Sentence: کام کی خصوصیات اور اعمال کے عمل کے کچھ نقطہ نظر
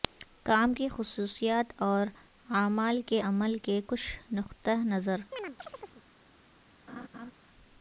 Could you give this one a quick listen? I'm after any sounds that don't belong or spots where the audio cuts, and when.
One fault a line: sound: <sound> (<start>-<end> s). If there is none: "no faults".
sound: chirp (5.3-6.0 s)
sound: laugh (6.9-7.3 s)